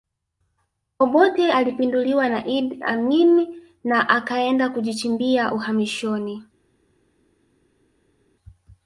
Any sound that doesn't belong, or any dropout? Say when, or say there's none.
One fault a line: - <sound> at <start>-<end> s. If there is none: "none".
none